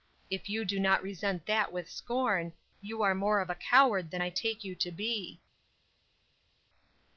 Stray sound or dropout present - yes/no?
no